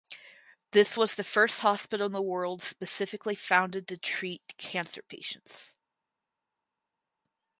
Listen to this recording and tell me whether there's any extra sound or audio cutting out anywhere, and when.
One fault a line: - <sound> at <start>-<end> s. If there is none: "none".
none